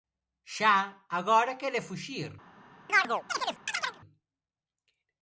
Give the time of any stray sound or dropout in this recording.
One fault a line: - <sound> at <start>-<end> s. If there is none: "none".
- chirp at 2.9-4.0 s